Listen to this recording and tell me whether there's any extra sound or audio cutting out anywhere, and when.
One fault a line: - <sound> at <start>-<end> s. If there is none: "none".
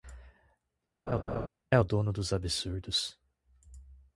- laugh at 1.1-1.5 s